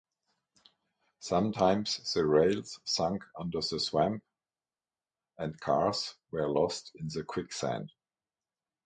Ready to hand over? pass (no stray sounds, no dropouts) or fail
pass